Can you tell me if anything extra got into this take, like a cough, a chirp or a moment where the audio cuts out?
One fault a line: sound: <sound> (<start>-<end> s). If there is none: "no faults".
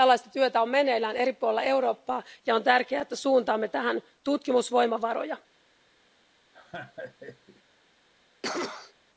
sound: laugh (6.5-7.6 s)
sound: cough (8.4-8.9 s)